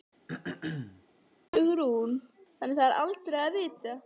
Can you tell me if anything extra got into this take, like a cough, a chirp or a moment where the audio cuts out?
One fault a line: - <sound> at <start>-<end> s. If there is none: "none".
- throat clearing at 0.3-1.0 s